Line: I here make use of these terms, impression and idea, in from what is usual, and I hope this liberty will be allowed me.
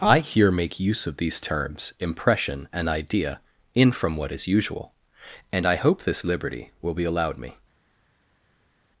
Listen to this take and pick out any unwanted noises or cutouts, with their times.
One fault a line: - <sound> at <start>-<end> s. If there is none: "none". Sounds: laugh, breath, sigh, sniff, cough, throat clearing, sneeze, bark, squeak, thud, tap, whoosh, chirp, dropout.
none